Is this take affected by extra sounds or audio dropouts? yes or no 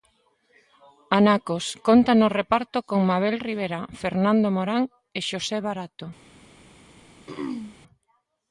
yes